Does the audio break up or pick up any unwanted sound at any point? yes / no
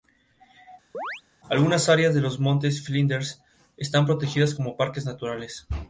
yes